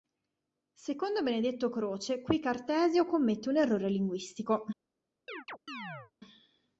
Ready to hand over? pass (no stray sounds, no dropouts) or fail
fail